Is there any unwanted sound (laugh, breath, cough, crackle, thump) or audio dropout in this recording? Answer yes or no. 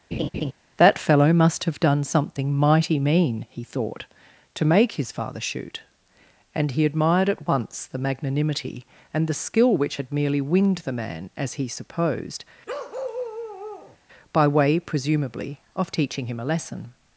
yes